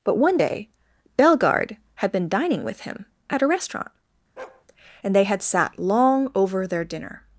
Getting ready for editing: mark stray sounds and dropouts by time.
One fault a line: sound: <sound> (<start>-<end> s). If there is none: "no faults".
sound: bark (4.4-4.6 s)